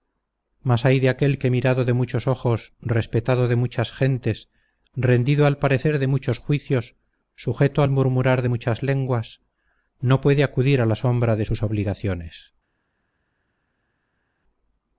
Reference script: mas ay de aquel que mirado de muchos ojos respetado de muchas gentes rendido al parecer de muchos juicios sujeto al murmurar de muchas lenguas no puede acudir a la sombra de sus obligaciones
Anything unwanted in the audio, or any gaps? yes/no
no